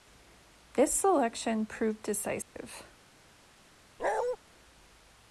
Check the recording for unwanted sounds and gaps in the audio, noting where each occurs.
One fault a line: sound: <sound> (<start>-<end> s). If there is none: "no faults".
sound: dropout (2.4-2.6 s)
sound: bark (4.0-4.4 s)